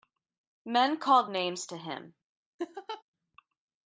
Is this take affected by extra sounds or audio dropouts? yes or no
yes